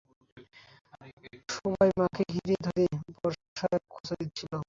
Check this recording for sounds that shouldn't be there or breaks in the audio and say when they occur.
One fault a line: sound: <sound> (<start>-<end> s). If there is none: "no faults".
no faults